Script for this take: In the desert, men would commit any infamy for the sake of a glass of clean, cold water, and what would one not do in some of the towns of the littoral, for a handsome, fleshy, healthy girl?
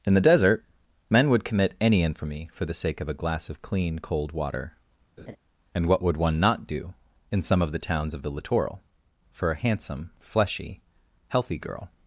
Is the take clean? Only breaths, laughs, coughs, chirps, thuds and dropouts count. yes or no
no